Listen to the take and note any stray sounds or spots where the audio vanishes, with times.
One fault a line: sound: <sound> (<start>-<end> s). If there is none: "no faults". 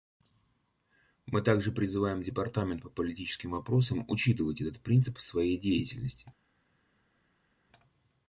no faults